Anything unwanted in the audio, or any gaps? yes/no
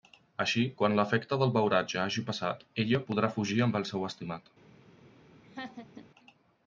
yes